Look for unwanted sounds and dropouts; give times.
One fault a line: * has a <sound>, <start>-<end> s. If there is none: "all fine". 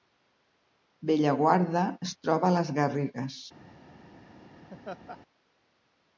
* has a laugh, 4.7-5.2 s